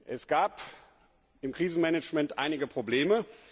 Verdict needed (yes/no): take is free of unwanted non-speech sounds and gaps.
yes